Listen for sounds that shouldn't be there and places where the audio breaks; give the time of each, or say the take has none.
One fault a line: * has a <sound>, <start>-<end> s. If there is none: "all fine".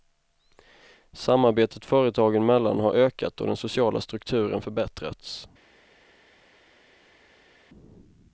all fine